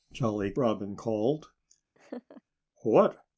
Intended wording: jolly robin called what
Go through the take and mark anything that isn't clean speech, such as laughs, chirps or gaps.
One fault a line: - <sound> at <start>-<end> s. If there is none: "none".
- laugh at 1.9-2.4 s